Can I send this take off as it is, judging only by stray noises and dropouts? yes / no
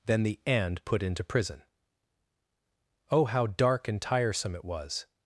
yes